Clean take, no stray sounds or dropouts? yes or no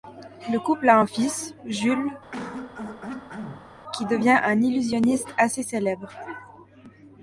no